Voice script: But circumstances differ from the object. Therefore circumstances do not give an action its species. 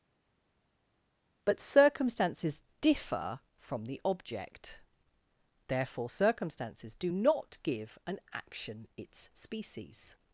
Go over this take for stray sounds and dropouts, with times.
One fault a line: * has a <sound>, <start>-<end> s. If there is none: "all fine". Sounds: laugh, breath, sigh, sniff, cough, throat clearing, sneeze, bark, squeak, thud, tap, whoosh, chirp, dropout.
all fine